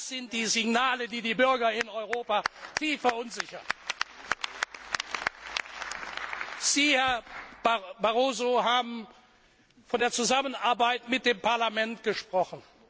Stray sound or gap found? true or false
false